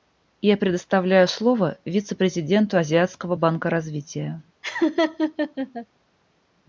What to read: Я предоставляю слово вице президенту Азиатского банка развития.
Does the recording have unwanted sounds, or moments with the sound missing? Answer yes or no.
yes